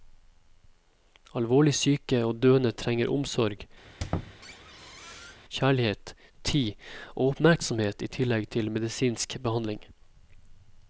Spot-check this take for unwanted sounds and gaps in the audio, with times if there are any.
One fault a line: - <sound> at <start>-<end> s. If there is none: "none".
- squeak at 3.8-5.4 s